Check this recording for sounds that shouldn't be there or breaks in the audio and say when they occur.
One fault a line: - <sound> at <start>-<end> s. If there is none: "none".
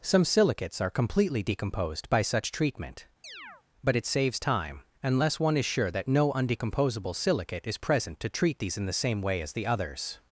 - chirp at 3.2-3.6 s